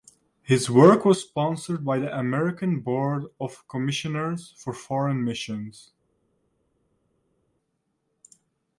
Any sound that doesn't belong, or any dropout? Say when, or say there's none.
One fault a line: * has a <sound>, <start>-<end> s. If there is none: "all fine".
all fine